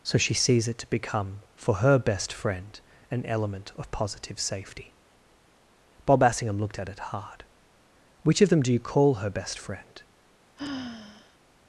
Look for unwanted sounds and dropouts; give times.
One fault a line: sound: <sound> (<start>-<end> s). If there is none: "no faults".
sound: sigh (10.6-11.4 s)